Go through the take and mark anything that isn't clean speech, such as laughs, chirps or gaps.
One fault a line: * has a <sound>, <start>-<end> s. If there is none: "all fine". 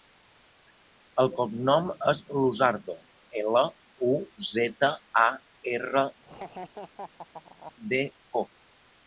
* has a laugh, 6.2-7.7 s